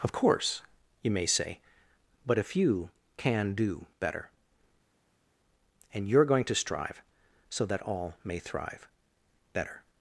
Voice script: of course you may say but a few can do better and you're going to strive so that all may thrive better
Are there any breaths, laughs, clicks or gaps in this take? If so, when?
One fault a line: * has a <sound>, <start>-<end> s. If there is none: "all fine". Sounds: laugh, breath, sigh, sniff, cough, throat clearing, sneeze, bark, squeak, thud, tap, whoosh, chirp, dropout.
all fine